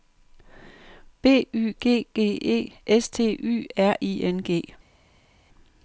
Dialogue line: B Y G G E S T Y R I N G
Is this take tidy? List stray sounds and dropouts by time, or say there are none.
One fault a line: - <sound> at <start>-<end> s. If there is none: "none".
none